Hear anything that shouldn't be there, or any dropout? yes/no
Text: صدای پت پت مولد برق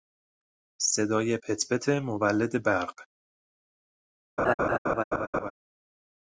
yes